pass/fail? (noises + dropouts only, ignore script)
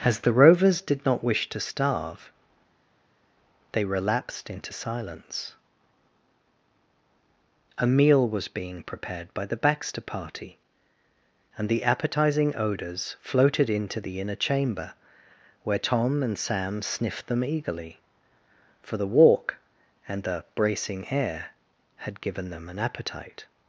pass